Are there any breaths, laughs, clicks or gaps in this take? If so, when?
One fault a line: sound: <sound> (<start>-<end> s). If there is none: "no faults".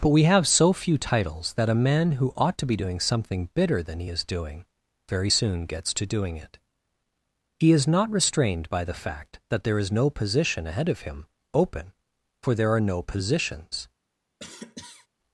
sound: cough (14.4-15.1 s)